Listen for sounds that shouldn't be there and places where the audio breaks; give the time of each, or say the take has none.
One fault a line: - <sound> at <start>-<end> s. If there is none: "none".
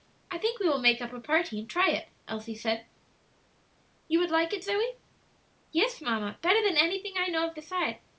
none